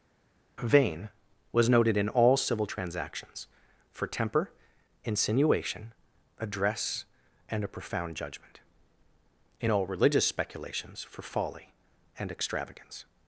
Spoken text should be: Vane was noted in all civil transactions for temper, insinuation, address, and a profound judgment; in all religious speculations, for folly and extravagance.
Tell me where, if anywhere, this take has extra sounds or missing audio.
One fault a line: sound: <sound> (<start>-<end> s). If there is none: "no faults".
no faults